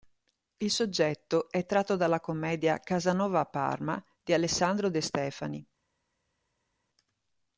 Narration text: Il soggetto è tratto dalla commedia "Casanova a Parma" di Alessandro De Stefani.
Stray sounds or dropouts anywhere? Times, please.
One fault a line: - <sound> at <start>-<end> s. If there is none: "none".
none